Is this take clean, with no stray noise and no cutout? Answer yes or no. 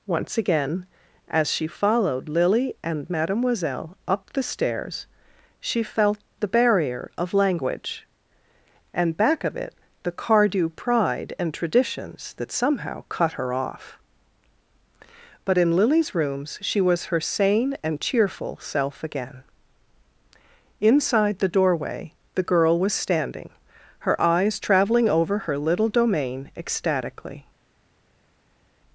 yes